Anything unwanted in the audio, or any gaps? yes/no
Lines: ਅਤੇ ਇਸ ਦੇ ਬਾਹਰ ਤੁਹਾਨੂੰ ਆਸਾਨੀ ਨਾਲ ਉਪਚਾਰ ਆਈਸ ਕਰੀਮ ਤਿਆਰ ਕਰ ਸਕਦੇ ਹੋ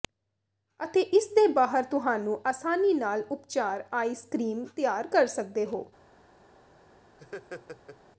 yes